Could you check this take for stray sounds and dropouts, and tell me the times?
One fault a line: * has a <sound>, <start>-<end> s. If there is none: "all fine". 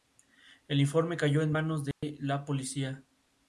* has a dropout, 1.9-2.0 s